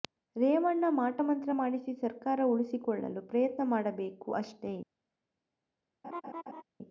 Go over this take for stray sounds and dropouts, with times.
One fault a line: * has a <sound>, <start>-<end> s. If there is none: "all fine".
* has a laugh, 6.0-6.6 s